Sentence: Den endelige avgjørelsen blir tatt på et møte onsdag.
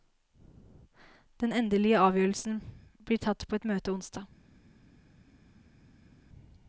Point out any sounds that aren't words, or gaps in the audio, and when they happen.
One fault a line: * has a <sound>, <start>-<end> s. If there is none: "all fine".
all fine